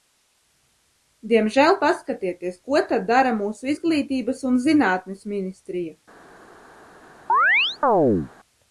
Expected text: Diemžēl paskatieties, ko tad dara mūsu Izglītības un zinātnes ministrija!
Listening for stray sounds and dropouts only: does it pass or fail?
fail